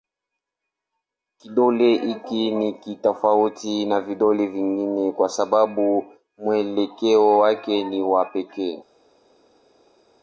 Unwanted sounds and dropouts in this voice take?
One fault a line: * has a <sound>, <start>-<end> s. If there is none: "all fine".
all fine